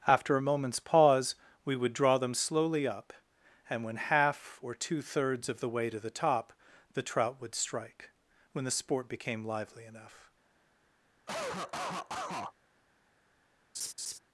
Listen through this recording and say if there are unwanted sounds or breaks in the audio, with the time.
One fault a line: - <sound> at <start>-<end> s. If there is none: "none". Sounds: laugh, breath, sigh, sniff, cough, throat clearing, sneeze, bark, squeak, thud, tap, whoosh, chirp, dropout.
- cough at 11.3-12.5 s
- laugh at 13.7-14.2 s